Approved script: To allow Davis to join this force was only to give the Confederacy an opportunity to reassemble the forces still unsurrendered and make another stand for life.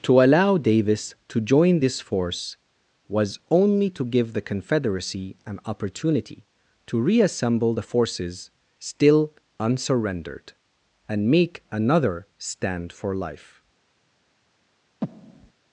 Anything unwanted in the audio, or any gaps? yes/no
yes